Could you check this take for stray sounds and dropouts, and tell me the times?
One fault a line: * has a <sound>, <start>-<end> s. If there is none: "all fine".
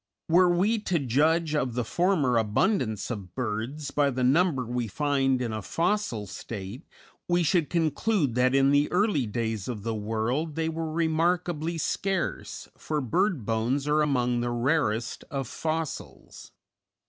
all fine